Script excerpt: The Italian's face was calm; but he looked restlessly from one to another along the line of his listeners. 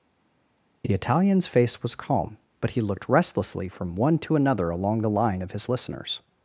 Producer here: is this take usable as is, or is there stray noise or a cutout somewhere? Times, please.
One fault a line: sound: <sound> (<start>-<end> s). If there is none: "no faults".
no faults